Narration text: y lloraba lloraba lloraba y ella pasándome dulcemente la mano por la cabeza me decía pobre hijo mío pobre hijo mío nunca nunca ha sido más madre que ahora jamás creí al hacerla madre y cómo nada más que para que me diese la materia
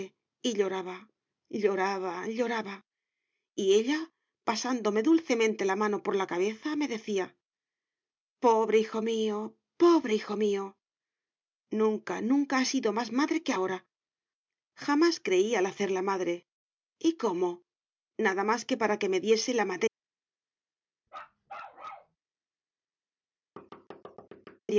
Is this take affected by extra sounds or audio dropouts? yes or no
yes